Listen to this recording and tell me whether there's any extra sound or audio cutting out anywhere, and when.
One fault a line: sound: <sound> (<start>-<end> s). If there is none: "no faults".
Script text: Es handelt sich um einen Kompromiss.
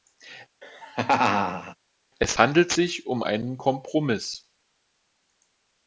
sound: laugh (0.6-1.8 s)